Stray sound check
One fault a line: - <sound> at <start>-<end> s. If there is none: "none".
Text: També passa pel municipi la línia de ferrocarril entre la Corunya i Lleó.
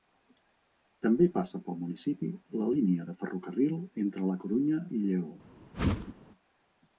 - whoosh at 5.7-6.1 s